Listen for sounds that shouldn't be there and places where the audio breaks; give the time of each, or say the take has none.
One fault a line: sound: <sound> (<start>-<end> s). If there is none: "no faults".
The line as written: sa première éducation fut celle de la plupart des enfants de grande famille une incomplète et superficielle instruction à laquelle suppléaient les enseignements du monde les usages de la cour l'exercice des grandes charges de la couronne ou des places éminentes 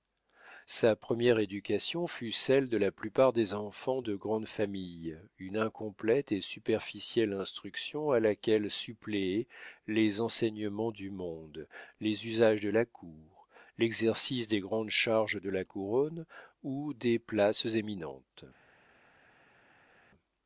no faults